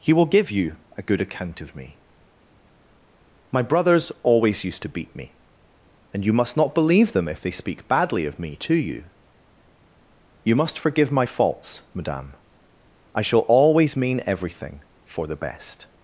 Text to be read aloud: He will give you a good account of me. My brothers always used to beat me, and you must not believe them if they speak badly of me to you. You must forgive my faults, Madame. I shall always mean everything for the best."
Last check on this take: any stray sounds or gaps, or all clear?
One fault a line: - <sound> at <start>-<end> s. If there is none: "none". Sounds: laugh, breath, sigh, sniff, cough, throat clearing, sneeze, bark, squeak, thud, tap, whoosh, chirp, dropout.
none